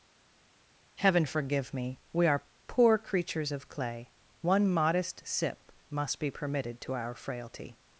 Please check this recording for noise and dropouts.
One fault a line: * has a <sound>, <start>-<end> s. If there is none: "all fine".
all fine